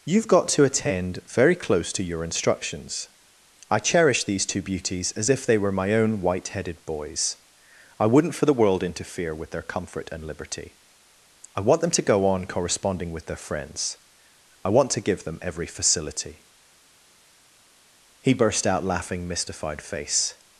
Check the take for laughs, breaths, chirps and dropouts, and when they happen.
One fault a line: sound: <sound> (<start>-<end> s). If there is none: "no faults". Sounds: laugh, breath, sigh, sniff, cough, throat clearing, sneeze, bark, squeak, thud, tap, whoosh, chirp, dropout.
no faults